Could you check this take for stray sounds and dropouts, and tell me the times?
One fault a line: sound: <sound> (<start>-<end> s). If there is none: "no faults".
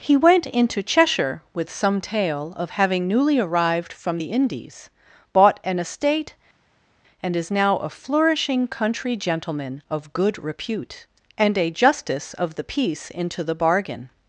no faults